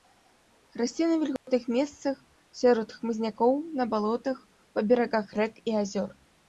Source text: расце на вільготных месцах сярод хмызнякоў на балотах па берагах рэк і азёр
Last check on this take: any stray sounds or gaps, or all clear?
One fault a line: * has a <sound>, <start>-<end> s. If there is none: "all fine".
* has a dropout, 1.4-1.5 s